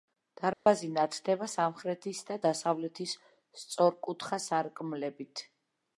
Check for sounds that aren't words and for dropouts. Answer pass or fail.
fail